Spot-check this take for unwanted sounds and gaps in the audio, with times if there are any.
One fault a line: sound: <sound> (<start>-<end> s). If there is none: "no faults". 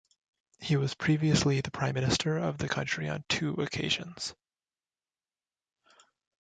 no faults